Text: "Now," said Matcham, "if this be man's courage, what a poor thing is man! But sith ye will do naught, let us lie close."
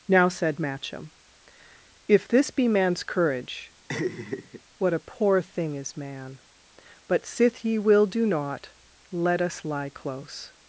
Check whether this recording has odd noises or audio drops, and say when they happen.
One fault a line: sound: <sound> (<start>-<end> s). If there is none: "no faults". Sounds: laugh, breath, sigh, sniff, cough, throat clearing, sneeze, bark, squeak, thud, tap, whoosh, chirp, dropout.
sound: laugh (3.9-4.6 s)